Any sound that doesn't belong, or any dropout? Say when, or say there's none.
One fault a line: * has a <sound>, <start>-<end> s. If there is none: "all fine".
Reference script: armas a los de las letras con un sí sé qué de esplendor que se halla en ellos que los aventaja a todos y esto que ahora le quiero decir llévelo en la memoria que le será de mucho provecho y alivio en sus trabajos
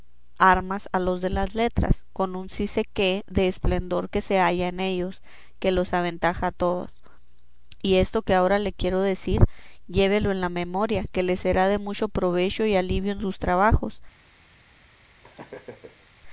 * has a laugh, 15.2-16.1 s